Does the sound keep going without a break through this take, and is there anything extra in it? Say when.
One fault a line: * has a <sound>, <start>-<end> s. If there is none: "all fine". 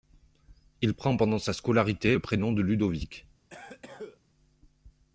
* has a cough, 3.5-4.2 s